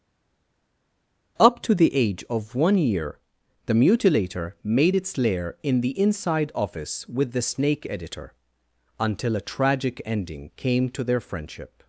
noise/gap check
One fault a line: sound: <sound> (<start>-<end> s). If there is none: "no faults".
no faults